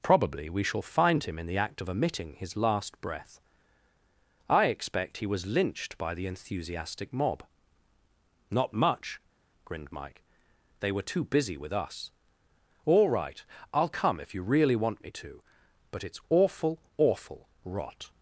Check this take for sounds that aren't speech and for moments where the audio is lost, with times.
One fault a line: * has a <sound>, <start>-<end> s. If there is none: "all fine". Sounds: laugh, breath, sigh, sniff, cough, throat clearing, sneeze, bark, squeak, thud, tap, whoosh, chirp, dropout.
all fine